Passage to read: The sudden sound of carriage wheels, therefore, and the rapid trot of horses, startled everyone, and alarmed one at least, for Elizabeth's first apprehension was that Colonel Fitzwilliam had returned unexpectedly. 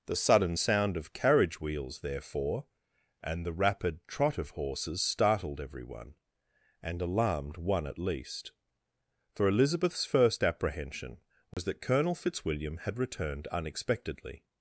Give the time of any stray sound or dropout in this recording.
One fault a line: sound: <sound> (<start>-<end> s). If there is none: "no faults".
sound: dropout (11.5-11.6 s)